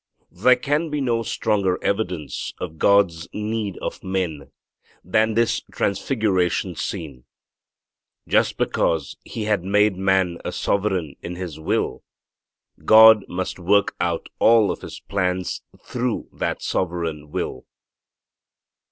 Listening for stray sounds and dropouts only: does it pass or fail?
pass